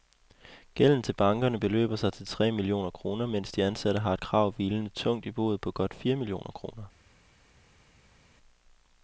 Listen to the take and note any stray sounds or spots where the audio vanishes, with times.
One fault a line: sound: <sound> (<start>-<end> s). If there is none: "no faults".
no faults